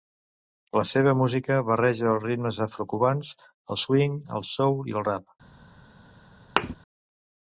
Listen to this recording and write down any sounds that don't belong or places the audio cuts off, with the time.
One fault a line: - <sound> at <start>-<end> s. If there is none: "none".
- thud at 6.6-6.8 s